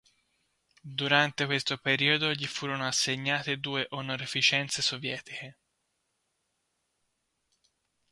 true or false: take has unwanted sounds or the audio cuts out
false